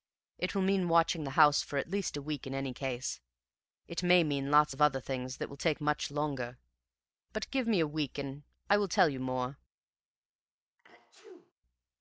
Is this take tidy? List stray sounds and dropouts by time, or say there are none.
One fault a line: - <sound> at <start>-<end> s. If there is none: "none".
- sneeze at 10.8-11.5 s